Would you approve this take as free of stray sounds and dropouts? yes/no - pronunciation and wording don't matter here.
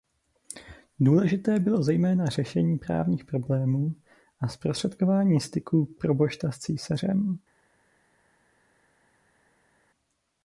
yes